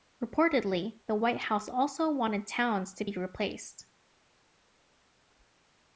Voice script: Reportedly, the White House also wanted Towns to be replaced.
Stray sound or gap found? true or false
false